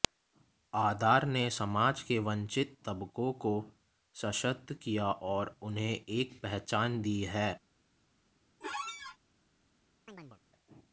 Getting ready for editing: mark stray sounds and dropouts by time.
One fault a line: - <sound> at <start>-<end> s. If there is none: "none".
- squeak at 8.6-9.2 s
- chirp at 10.1-10.4 s